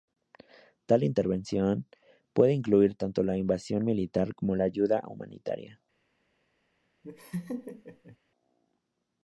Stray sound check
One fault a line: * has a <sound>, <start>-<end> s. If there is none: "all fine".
* has a laugh, 7.0-8.2 s